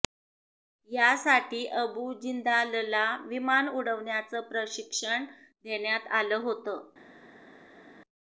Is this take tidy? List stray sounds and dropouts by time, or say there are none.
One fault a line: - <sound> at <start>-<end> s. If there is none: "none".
none